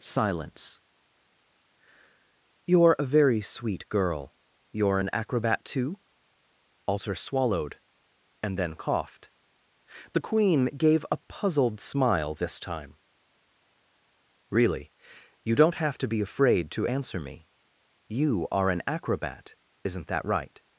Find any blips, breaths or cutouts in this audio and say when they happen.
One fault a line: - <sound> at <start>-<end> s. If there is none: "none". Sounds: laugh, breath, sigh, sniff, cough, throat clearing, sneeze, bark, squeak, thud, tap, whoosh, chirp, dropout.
none